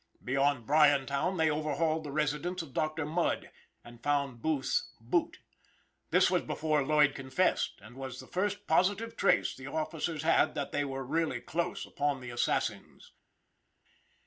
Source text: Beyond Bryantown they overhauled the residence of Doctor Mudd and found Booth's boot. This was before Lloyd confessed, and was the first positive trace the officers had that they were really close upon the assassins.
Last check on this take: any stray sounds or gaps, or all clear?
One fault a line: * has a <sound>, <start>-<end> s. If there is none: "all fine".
all fine